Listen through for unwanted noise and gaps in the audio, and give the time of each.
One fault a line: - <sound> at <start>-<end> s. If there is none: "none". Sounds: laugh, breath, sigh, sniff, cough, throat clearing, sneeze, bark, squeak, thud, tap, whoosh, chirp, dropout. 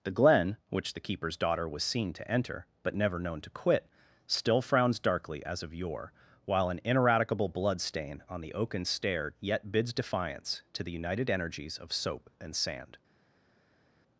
none